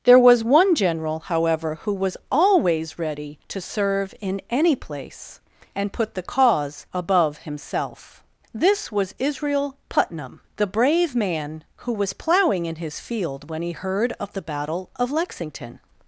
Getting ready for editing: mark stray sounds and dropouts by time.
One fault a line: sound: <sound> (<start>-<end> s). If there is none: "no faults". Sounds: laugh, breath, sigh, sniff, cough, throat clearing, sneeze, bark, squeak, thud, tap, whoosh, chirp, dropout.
no faults